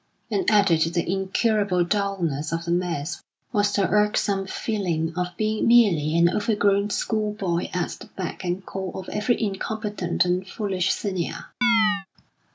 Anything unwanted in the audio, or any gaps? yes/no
yes